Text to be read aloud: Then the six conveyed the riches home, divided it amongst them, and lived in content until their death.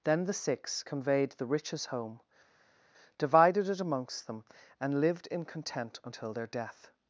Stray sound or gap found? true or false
false